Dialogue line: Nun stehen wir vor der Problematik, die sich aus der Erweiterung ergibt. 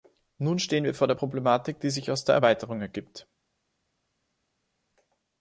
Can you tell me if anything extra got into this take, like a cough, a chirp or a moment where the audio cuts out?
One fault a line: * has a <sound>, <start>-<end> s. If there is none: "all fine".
all fine